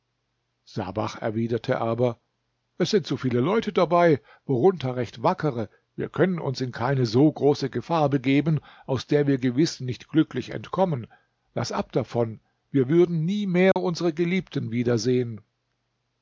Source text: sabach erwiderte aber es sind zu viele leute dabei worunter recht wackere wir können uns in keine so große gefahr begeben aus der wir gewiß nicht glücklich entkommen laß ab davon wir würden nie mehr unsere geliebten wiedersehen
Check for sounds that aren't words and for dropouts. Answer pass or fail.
fail